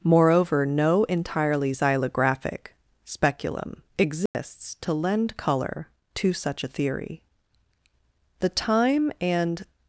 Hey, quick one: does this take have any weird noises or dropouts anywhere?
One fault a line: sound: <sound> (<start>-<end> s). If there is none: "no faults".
sound: dropout (4.3-4.3 s)